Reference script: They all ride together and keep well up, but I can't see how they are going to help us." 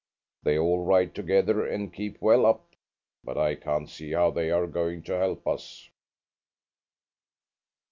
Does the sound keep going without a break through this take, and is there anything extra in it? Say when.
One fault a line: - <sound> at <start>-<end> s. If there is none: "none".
none